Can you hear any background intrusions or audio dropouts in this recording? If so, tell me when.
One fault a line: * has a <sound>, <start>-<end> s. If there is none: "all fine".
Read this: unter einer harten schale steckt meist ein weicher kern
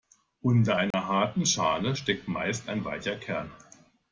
* has a dropout, 0.9-0.9 s